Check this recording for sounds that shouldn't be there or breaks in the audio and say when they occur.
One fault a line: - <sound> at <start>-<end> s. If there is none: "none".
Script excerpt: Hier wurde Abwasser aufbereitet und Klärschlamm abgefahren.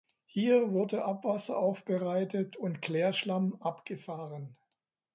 none